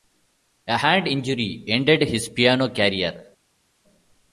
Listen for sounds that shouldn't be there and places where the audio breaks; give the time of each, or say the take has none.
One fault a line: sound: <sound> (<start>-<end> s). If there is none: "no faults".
no faults